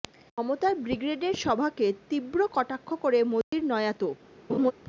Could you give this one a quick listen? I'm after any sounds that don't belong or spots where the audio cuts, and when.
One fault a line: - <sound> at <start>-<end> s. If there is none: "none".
- dropout at 3.4-3.5 s
- laugh at 4.5-4.7 s